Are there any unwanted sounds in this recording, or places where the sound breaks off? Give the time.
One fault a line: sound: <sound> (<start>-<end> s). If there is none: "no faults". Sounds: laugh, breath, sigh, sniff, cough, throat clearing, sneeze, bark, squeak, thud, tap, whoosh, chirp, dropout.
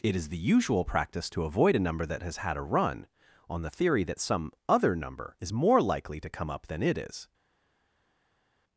no faults